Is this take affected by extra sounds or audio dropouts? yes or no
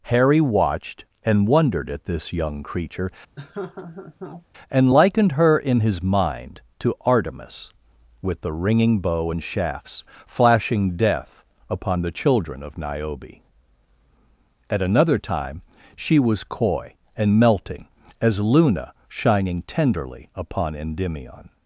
yes